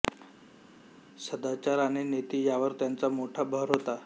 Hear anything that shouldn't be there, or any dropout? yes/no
no